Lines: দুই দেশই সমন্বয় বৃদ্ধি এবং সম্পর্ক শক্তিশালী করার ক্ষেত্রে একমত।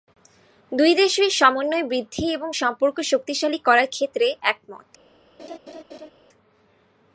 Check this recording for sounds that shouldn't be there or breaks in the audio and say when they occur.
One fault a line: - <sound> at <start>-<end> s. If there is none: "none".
- laugh at 5.4-6.1 s